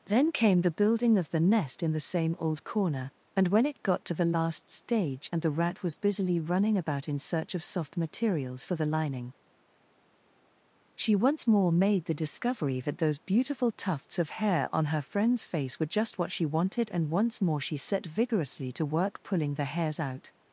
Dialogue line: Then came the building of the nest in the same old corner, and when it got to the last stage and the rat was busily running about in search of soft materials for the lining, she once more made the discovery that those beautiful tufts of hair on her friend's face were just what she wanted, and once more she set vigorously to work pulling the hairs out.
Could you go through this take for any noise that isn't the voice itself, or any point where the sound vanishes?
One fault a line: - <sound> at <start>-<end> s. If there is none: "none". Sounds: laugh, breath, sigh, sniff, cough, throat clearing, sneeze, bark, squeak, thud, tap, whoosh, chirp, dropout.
none